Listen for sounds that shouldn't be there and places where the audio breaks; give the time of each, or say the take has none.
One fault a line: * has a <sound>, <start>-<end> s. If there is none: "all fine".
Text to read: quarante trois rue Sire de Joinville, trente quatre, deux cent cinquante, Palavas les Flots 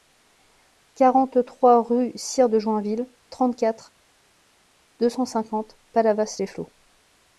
all fine